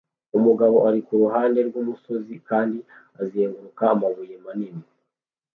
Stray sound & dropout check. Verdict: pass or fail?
pass